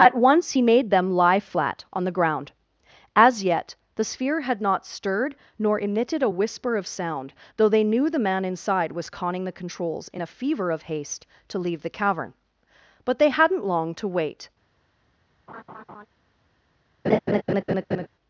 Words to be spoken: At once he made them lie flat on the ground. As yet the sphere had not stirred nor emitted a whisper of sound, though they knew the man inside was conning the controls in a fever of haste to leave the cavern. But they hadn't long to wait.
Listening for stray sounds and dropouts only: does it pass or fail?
fail